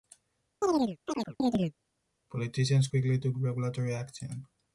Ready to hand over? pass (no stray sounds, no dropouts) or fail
fail